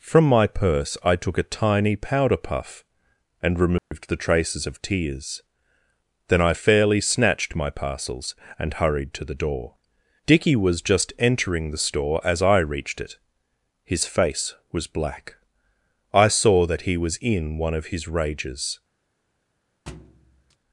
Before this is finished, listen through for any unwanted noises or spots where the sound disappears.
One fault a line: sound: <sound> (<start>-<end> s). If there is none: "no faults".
sound: dropout (3.8-3.9 s)
sound: thud (19.9-20.6 s)